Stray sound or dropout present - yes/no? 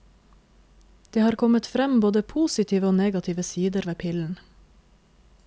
no